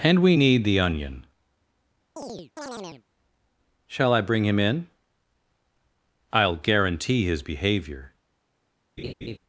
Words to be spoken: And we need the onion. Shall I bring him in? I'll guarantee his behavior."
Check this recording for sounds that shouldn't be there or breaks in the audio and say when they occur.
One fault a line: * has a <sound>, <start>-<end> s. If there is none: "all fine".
* has a chirp, 2.2-3.0 s
* has a laugh, 9.0-9.4 s